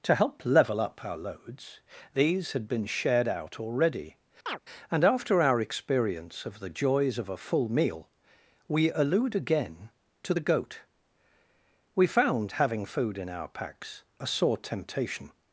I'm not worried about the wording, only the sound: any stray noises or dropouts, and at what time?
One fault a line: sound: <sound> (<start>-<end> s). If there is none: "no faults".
sound: chirp (4.5-4.6 s)